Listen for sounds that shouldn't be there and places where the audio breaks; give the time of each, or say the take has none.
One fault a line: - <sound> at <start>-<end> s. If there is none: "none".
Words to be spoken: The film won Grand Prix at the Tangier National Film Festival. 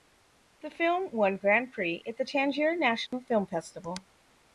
- dropout at 3.1-3.1 s